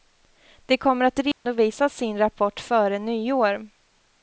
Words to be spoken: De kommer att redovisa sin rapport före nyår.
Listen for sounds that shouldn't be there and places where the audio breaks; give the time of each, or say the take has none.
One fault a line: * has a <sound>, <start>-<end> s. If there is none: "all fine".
* has a dropout, 1.3-1.5 s